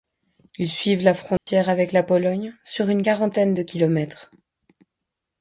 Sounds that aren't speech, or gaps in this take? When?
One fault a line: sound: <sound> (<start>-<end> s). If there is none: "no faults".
sound: dropout (1.4-1.5 s)